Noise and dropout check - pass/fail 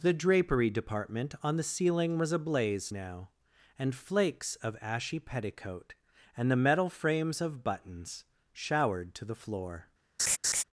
fail